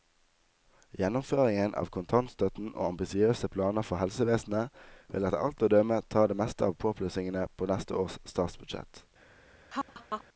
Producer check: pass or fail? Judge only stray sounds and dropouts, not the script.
fail